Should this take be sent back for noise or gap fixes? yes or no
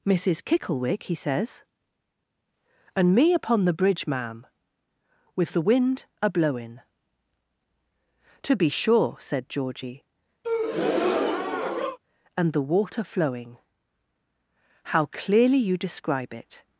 yes